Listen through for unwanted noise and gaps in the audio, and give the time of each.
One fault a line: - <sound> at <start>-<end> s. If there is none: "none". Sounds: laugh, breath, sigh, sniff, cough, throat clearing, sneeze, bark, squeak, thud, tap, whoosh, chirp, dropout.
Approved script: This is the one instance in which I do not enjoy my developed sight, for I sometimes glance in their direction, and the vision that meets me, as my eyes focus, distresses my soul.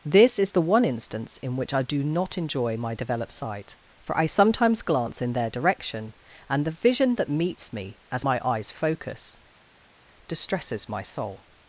none